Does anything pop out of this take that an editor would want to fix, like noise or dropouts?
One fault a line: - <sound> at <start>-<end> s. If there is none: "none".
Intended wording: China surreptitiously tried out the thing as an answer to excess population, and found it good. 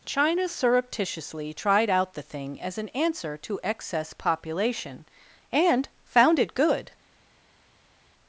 none